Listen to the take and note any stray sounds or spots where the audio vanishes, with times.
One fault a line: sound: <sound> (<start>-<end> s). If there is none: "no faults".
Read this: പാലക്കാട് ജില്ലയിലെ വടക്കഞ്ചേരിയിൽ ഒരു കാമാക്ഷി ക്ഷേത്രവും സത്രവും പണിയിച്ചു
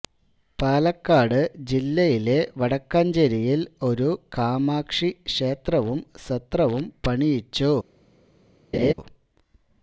sound: laugh (8.7-8.9 s)